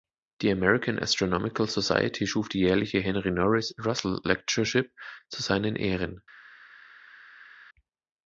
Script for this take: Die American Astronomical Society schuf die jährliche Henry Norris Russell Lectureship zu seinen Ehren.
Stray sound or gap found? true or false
false